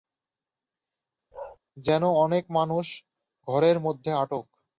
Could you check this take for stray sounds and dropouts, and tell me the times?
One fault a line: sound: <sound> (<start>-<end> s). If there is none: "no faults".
sound: bark (1.3-1.6 s)